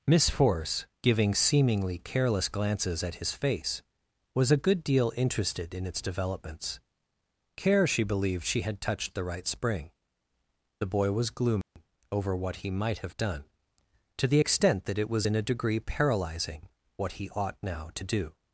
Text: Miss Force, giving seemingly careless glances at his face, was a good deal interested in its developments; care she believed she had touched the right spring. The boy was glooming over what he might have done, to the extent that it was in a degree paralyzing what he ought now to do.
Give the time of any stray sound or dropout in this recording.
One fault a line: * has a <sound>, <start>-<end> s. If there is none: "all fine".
* has a dropout, 11.6-11.8 s